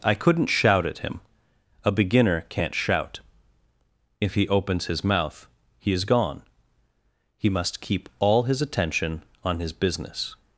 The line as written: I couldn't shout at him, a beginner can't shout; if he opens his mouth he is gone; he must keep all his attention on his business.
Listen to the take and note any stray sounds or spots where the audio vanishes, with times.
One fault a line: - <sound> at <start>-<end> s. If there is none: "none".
none